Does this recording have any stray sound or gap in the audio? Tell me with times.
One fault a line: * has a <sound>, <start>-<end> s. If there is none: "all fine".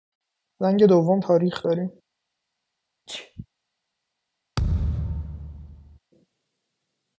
* has a sneeze, 3.1-3.5 s
* has a thud, 4.6-6.0 s